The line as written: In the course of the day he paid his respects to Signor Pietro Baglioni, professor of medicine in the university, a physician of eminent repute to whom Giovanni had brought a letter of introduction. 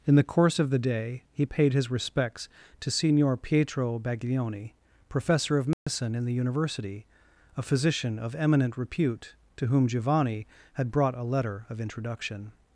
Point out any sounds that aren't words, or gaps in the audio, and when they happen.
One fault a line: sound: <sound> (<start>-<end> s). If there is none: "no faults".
sound: dropout (5.7-5.9 s)